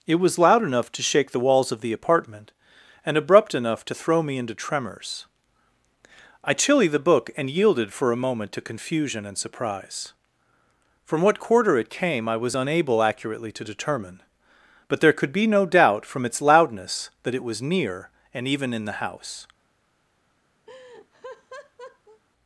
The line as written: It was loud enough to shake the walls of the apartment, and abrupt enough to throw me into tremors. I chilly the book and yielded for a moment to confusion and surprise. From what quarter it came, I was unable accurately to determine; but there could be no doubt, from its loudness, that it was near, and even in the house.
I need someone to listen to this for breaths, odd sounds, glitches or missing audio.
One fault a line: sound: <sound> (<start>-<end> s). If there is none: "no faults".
sound: laugh (20.7-22.2 s)